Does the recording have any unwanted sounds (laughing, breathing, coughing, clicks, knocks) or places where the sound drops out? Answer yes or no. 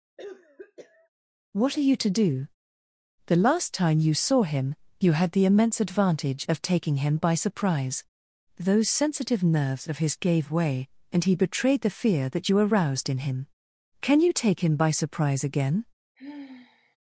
yes